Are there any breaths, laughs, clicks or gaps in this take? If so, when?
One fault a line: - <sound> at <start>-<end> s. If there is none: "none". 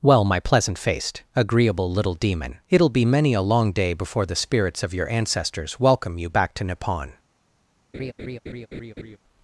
- laugh at 7.9-9.2 s